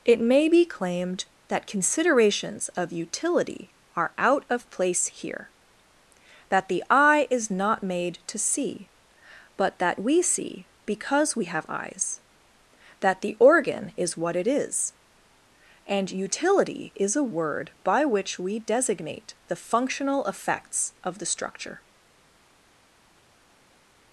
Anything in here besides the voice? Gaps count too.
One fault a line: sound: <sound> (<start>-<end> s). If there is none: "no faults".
no faults